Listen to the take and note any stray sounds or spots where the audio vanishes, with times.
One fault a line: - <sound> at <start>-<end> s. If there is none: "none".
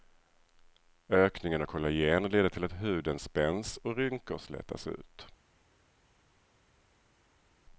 none